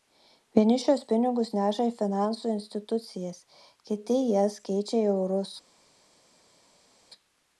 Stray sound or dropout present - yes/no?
no